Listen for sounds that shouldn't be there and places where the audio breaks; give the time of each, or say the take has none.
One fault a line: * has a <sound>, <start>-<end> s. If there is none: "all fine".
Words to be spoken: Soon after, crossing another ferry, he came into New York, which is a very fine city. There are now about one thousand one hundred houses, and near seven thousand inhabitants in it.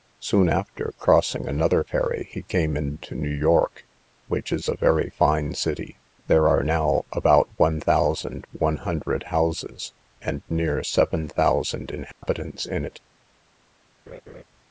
* has a dropout, 12.1-12.2 s
* has a laugh, 14.1-14.4 s